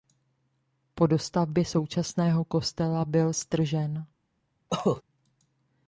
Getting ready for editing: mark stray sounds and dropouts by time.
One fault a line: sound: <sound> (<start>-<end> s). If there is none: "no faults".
sound: cough (4.7-5.0 s)